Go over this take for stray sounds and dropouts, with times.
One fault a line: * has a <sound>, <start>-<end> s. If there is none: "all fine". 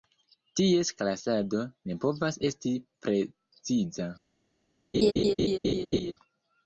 * has a laugh, 4.9-6.1 s